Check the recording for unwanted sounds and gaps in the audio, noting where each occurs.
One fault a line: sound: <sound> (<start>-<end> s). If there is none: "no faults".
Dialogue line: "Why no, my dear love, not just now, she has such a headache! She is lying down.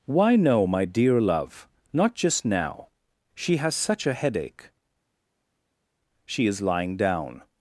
no faults